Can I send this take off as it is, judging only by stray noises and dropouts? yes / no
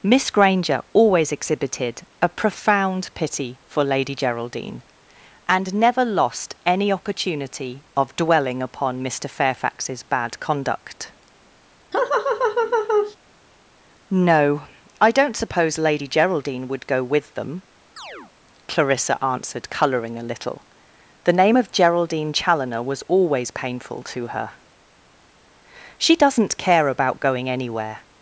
no